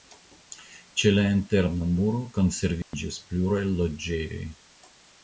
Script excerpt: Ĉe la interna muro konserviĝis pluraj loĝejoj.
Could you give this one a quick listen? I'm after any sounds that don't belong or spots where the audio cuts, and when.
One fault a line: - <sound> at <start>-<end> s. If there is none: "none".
- dropout at 2.8-2.9 s